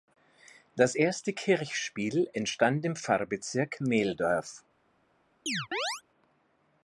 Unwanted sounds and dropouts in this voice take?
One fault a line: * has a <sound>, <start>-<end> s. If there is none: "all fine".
* has a chirp, 5.5-6.0 s